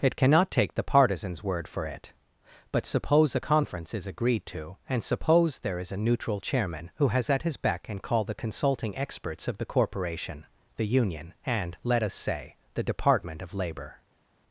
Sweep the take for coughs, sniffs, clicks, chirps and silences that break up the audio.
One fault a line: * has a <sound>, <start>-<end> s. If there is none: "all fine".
all fine